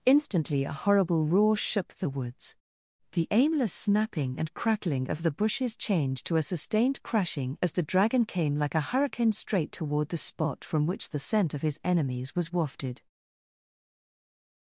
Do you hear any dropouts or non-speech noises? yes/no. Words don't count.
no